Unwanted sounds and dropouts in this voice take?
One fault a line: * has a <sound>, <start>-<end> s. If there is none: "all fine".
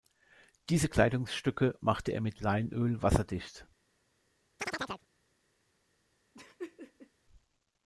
* has a chirp, 4.6-5.1 s
* has a laugh, 6.3-7.1 s